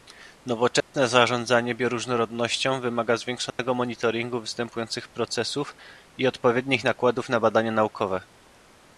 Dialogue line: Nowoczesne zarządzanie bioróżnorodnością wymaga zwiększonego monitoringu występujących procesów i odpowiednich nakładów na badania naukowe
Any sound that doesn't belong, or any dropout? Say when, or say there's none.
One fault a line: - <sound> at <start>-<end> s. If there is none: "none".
- dropout at 0.8-0.9 s
- dropout at 3.5-3.6 s